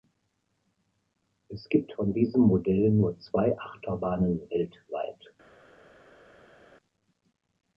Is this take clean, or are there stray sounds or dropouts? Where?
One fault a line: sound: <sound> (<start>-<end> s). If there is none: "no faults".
no faults